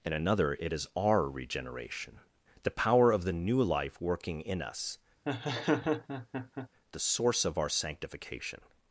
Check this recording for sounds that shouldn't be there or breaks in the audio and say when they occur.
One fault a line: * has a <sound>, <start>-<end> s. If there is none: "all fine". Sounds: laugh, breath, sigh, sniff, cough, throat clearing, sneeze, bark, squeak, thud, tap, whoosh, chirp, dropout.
* has a laugh, 5.3-6.7 s